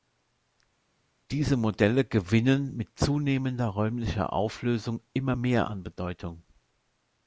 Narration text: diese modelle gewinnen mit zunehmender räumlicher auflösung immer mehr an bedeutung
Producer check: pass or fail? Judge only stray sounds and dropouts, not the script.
pass